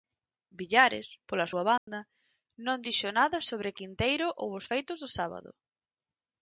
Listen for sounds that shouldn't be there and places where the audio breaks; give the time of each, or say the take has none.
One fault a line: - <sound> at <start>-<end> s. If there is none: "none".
- dropout at 1.8-1.9 s